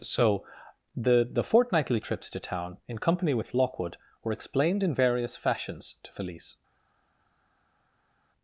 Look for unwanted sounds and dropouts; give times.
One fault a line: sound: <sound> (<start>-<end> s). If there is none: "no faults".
no faults